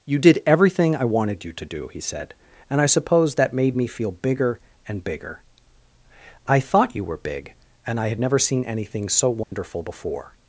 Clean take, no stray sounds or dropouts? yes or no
no